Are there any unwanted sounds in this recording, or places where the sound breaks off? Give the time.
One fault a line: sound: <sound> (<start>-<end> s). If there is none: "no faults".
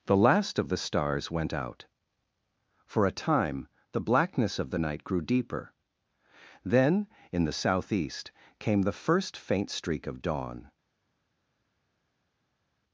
no faults